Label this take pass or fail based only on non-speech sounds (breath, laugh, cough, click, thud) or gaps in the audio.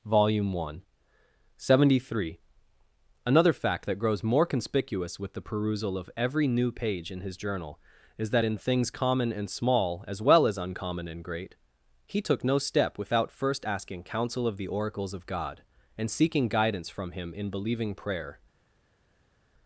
pass